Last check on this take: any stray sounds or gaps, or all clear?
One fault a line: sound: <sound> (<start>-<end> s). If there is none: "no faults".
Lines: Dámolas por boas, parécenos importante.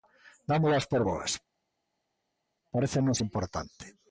no faults